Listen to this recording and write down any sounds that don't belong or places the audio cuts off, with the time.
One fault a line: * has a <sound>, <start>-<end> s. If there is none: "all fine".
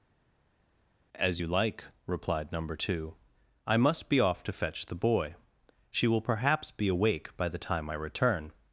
all fine